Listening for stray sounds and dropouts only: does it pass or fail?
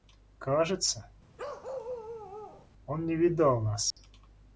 fail